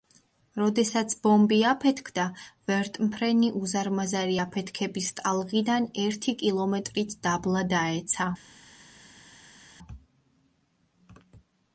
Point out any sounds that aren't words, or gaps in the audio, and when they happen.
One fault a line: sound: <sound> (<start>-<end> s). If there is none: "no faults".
no faults